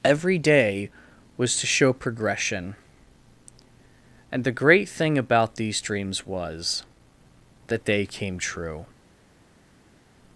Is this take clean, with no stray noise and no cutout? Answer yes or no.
yes